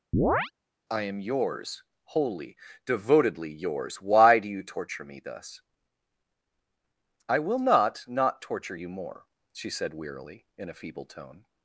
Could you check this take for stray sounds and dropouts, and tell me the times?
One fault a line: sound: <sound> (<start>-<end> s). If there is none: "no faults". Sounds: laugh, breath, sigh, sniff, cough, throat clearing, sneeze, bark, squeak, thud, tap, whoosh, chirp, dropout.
sound: chirp (0.1-0.5 s)